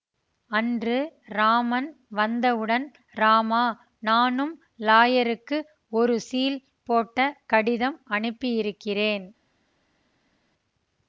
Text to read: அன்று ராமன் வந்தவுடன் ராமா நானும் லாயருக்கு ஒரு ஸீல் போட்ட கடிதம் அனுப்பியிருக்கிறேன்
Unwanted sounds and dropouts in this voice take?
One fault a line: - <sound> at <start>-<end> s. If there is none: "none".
none